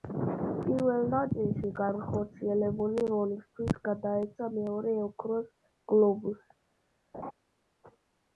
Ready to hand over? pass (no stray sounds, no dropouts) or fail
fail